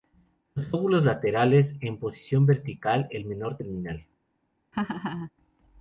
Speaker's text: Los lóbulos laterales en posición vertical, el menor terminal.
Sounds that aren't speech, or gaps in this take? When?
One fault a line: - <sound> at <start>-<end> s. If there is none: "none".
- laugh at 4.7-5.3 s